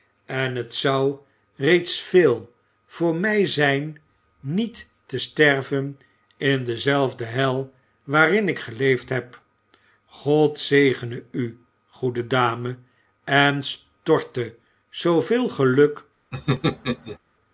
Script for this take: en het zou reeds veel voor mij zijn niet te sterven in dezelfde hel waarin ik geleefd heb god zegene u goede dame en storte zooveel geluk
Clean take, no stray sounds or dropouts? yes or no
no